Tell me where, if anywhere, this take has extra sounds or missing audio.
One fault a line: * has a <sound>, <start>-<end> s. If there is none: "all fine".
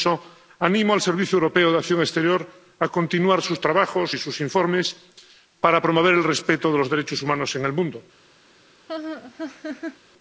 * has a laugh, 8.9-10.0 s